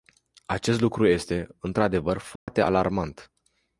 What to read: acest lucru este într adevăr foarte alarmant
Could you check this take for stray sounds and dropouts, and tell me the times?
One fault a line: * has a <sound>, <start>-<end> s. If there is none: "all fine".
* has a dropout, 2.4-2.5 s